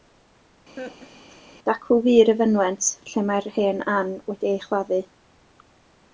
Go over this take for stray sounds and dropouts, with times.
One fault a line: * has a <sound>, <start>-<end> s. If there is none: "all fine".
* has a laugh, 0.8-1.4 s